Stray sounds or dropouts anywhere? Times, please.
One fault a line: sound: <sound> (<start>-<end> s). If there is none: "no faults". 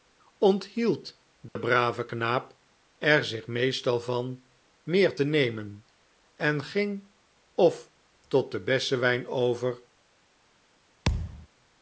sound: dropout (1.5-1.6 s)
sound: thud (11.1-11.5 s)